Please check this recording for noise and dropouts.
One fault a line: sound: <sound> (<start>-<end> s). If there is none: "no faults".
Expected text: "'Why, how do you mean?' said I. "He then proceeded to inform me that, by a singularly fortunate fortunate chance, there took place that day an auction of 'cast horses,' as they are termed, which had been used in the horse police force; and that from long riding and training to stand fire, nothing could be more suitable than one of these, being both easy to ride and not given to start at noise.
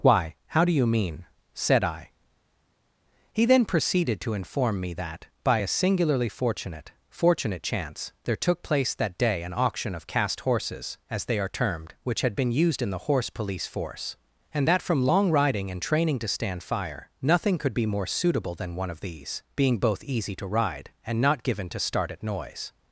no faults